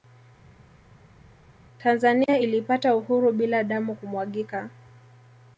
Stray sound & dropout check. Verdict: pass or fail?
pass